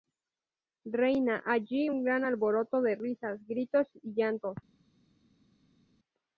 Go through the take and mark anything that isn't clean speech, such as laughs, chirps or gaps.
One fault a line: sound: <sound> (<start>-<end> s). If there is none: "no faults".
no faults